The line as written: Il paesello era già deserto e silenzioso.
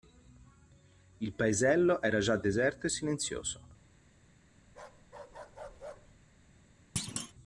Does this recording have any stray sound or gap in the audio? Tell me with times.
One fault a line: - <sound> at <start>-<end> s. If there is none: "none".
- bark at 4.7-6.2 s
- thud at 7.0-7.3 s